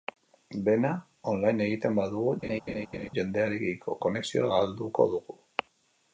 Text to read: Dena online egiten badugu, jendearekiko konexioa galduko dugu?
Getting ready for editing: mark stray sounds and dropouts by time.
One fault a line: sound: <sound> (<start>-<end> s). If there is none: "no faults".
sound: laugh (2.4-3.1 s)